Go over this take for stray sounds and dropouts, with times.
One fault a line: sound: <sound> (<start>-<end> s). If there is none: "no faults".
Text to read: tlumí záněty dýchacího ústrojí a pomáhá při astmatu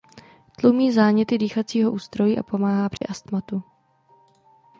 sound: dropout (3.0-3.0 s)